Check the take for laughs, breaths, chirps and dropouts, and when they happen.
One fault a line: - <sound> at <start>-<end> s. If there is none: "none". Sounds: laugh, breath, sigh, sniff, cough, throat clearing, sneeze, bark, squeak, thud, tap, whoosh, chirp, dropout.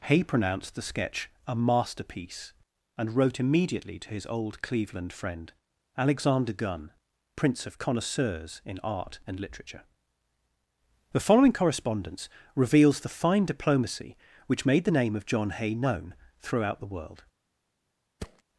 - thud at 18.2-18.4 s